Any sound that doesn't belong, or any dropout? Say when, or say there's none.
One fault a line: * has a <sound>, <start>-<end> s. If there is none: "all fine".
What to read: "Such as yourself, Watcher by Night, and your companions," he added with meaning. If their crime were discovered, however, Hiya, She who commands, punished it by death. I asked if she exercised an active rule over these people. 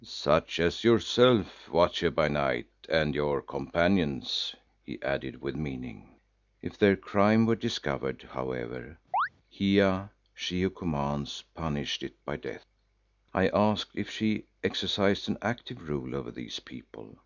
* has a chirp, 9.1-9.3 s